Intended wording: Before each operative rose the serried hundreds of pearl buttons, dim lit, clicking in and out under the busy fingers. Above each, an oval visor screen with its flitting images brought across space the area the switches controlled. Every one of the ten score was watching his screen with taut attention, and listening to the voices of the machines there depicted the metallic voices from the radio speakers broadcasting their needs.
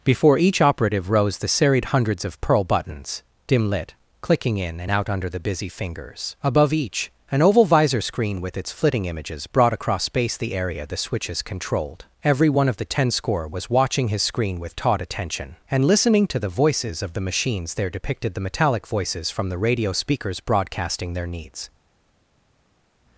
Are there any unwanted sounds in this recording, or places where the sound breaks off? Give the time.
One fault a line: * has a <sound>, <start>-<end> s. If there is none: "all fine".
all fine